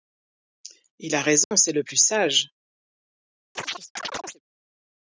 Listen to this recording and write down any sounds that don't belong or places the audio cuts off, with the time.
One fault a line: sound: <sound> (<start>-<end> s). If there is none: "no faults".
sound: dropout (1.4-1.5 s)
sound: chirp (3.5-4.4 s)